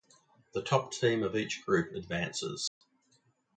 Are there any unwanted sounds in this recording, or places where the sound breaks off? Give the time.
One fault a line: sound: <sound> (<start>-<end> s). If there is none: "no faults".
sound: dropout (2.7-2.8 s)